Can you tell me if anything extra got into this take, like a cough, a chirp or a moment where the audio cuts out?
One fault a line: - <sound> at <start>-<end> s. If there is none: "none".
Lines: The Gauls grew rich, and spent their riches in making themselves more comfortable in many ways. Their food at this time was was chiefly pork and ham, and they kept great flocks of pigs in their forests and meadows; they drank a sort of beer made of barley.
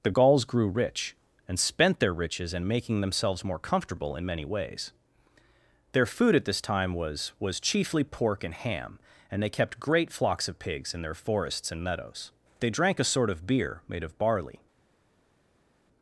none